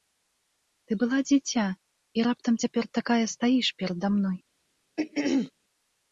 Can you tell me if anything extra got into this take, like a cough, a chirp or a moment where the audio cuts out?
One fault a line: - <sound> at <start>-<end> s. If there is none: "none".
- throat clearing at 5.0-5.5 s